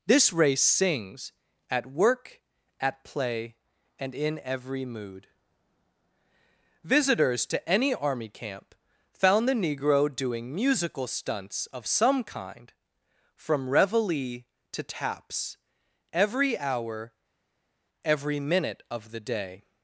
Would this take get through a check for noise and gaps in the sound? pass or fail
pass